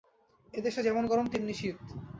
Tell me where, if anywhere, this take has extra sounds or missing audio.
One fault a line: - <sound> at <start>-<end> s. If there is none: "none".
none